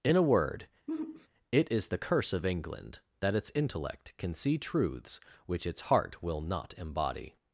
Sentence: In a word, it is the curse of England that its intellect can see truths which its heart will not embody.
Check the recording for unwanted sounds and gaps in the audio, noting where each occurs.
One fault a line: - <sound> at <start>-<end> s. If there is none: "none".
- sigh at 0.9-1.3 s